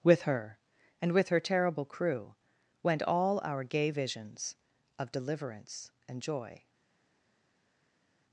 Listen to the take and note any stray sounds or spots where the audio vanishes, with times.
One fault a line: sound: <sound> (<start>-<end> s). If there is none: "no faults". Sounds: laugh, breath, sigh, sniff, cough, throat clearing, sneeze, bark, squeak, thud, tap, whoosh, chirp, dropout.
no faults